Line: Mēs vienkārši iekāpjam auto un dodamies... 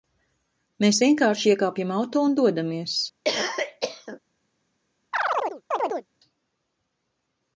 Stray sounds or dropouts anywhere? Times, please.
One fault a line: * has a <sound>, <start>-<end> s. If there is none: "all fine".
* has a cough, 3.2-4.2 s
* has a chirp, 5.1-6.1 s